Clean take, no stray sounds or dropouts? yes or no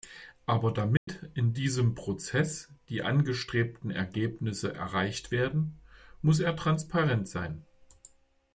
no